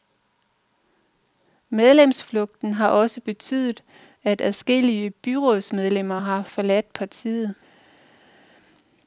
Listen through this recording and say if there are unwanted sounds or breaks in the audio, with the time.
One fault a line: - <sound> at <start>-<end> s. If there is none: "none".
none